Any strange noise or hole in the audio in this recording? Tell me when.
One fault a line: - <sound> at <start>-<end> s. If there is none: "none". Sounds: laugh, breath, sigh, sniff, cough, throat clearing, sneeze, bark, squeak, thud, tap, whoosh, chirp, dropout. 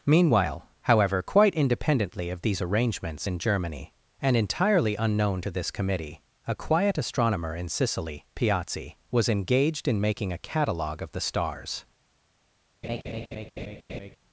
- laugh at 12.8-14.2 s